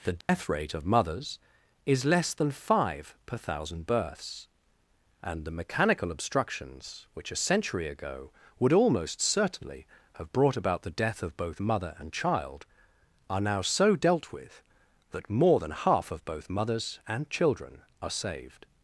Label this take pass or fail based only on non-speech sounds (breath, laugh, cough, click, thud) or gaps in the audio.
fail